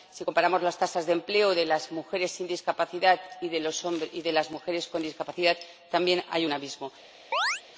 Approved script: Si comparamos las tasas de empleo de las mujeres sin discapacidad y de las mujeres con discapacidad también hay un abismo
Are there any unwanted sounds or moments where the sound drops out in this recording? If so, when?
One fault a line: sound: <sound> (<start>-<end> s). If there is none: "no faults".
sound: chirp (7.3-7.6 s)